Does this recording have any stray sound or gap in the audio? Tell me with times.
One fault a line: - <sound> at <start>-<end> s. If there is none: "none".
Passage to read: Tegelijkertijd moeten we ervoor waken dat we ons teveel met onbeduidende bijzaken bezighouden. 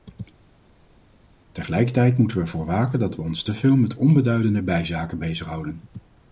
none